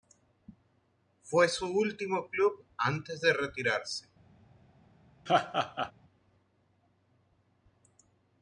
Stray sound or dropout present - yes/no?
yes